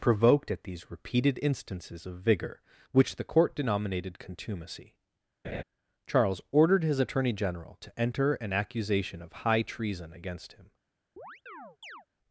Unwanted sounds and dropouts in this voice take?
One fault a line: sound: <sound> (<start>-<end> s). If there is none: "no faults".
sound: laugh (5.4-5.6 s)
sound: chirp (11.2-12.1 s)